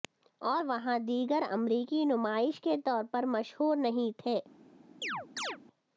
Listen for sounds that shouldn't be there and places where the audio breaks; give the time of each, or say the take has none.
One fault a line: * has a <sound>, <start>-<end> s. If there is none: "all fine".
* has a chirp, 5.0-5.6 s